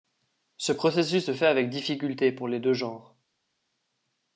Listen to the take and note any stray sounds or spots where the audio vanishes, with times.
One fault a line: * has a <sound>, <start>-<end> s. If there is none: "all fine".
all fine